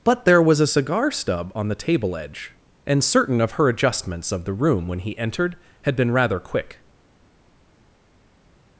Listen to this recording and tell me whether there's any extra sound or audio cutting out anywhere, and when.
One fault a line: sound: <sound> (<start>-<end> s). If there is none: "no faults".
no faults